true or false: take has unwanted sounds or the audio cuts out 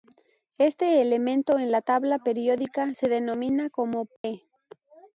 true